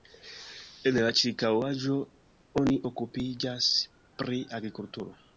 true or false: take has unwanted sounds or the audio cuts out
false